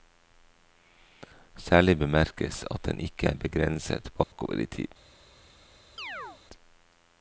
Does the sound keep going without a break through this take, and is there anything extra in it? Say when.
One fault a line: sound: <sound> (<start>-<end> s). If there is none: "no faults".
sound: dropout (4.2-4.3 s)
sound: chirp (6.0-6.4 s)